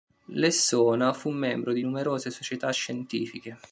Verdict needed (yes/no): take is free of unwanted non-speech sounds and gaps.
yes